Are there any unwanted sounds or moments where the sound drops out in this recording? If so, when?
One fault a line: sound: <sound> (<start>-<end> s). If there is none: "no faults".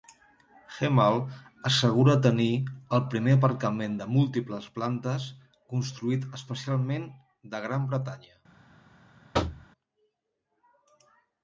sound: thud (9.3-9.7 s)